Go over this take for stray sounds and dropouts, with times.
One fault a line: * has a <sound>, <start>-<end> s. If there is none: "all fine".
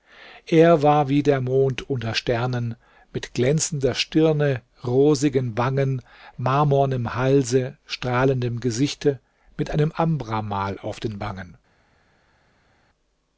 all fine